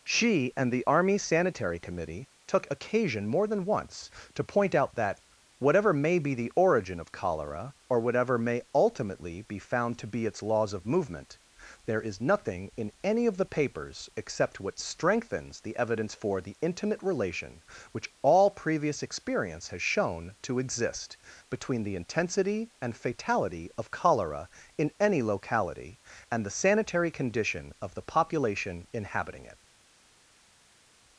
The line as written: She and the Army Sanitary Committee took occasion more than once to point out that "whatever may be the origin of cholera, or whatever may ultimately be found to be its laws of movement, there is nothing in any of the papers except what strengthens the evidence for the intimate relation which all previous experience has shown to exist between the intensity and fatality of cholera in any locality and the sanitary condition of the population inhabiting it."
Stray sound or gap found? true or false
false